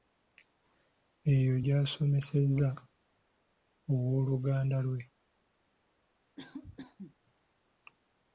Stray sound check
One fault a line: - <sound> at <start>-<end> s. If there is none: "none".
- cough at 6.4-7.1 s